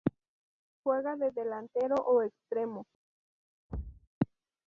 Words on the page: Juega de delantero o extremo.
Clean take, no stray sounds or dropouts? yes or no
no